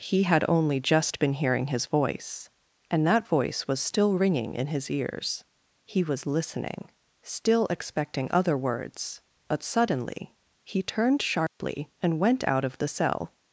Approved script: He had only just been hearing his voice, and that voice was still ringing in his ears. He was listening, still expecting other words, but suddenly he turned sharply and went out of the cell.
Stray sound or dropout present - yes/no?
yes